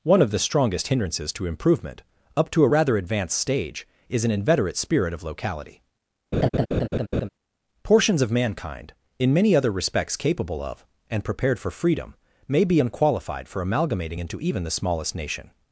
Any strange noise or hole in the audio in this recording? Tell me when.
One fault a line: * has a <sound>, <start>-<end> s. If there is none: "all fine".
* has a laugh, 6.3-7.3 s